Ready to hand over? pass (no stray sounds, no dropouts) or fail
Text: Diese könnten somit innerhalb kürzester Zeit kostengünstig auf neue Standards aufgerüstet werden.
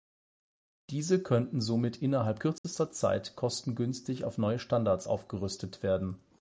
fail